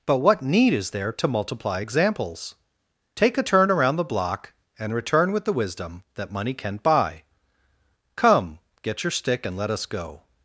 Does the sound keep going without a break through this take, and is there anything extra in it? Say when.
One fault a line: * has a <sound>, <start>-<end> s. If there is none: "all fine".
all fine